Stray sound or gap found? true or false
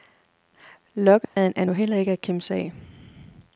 true